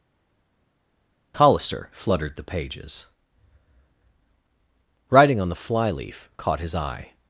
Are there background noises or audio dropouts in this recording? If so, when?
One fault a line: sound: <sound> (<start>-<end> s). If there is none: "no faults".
no faults